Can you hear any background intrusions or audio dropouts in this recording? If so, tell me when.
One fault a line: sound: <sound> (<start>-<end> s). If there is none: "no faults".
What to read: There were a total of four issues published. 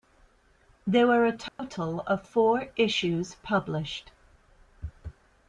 sound: dropout (1.5-1.6 s)